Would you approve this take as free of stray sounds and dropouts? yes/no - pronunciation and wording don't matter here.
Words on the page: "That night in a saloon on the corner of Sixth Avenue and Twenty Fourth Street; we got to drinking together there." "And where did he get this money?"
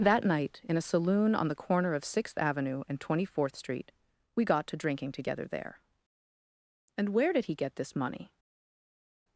yes